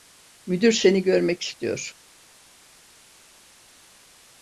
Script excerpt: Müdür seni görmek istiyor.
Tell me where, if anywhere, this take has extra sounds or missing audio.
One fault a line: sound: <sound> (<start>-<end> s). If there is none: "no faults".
no faults